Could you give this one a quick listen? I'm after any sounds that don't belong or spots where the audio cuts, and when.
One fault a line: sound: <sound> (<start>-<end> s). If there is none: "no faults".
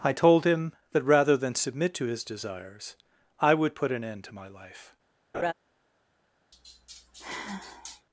sound: laugh (5.3-5.5 s)
sound: sigh (6.5-8.1 s)